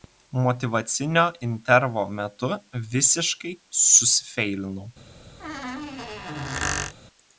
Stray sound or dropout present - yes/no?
yes